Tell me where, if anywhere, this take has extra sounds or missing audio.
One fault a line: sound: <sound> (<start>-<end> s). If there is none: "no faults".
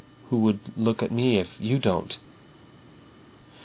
no faults